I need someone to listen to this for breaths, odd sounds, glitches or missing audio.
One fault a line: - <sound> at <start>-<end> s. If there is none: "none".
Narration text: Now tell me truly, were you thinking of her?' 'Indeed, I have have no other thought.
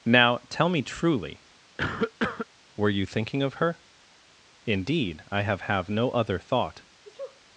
- cough at 1.8-2.5 s
- sneeze at 7.0-7.4 s